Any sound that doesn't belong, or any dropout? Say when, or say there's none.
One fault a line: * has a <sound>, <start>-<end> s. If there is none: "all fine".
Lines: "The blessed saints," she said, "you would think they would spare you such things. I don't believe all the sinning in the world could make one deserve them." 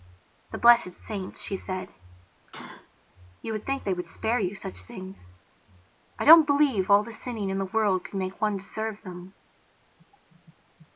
* has a sneeze, 2.5-2.9 s